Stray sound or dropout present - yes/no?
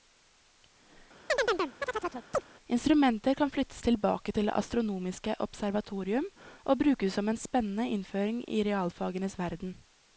yes